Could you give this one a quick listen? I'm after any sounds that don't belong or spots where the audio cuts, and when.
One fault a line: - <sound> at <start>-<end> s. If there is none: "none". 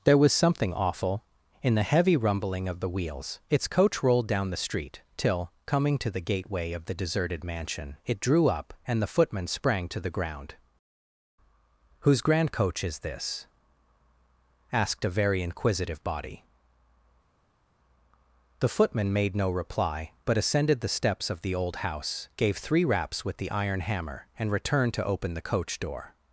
none